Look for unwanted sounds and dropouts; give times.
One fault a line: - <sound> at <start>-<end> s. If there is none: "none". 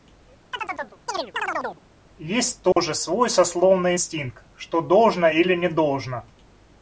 - chirp at 0.5-1.8 s
- dropout at 2.7-2.8 s